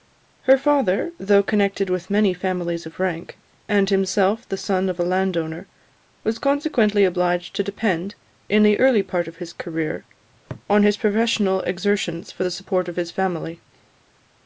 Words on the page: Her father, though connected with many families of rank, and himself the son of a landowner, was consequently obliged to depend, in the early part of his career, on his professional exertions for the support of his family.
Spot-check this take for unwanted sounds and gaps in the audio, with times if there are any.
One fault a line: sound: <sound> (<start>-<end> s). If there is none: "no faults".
no faults